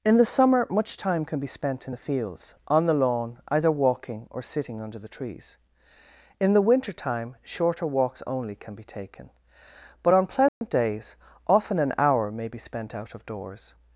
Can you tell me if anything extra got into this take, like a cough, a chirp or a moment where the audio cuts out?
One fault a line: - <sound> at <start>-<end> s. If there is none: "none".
- dropout at 10.5-10.6 s